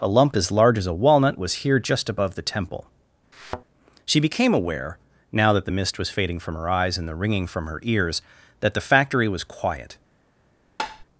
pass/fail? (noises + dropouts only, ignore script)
fail